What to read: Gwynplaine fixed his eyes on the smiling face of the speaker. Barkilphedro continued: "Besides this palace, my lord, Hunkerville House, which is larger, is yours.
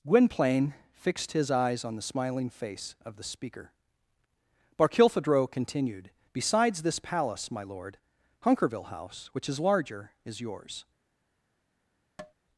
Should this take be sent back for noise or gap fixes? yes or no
yes